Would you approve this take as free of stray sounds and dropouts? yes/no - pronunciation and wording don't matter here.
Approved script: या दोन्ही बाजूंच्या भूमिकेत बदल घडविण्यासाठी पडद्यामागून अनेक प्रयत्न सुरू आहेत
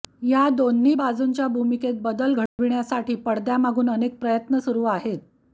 no